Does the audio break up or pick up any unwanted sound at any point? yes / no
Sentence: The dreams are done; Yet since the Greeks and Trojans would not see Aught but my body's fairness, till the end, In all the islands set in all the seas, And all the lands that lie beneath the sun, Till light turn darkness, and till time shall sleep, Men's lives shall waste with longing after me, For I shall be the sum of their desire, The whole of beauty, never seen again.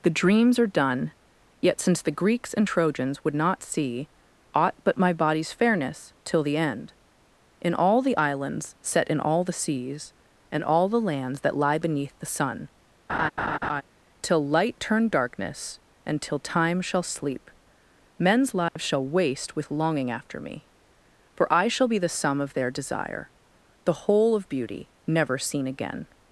yes